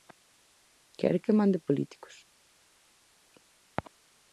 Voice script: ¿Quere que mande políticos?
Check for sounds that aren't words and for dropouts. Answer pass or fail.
pass